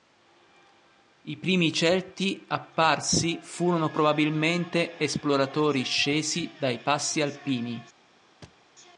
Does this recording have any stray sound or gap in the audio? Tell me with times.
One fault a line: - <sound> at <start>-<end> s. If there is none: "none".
- thud at 8.4-8.7 s